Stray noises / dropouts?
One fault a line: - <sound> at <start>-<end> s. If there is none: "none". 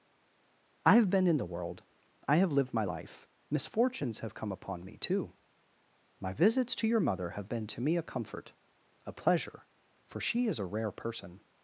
none